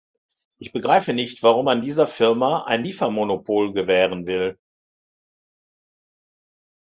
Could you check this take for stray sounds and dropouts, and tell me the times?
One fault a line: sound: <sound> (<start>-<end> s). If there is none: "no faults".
no faults